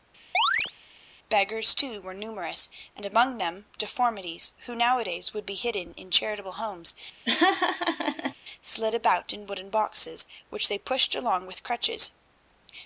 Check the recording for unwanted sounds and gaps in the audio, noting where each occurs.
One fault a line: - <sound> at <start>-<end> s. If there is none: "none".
- chirp at 0.3-0.7 s
- laugh at 7.3-8.3 s